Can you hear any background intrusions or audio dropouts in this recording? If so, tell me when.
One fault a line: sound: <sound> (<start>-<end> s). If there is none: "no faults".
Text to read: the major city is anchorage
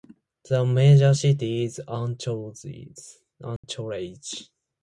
sound: dropout (3.6-3.6 s)